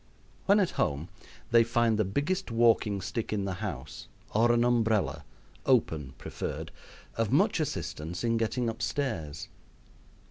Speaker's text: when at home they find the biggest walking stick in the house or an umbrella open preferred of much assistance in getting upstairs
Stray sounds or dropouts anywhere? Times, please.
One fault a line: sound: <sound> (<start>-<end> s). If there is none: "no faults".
no faults